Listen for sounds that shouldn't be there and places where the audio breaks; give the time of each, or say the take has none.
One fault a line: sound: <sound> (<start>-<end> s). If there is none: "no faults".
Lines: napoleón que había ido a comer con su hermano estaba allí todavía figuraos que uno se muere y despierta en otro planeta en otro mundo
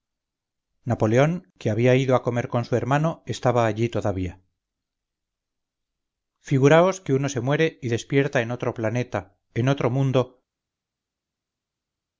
no faults